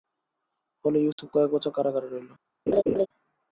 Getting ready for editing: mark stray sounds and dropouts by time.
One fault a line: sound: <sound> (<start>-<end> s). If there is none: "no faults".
sound: dropout (1.1-1.2 s)
sound: laugh (2.7-3.1 s)